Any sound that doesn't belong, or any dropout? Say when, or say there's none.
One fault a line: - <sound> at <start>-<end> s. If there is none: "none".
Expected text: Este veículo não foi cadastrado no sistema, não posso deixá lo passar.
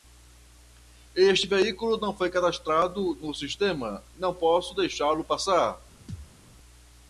- thud at 6.1-6.3 s